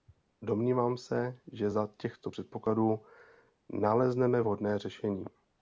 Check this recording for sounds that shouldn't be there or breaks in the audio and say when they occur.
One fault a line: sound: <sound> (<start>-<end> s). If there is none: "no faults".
no faults